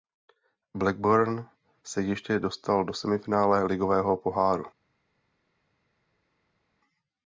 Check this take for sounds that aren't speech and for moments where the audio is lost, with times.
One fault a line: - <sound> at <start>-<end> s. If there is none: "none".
none